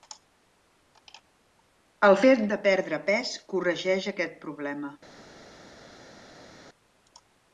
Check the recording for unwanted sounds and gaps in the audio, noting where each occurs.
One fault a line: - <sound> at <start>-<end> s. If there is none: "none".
none